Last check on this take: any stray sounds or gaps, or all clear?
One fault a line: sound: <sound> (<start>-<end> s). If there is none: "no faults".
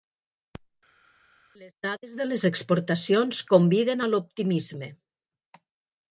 no faults